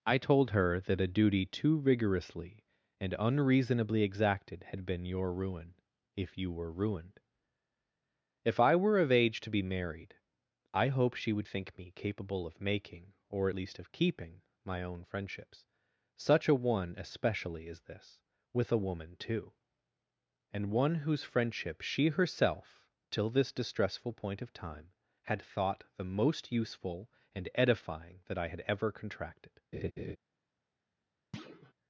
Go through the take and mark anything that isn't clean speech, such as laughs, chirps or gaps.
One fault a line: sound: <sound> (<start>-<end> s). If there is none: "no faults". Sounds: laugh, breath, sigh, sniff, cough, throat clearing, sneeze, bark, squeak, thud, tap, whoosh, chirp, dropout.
sound: laugh (29.7-30.2 s)
sound: thud (31.3-31.7 s)